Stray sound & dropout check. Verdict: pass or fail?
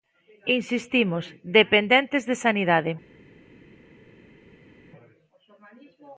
pass